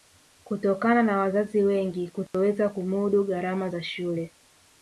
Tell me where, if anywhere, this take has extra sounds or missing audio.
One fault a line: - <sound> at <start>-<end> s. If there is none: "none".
- dropout at 2.3-2.3 s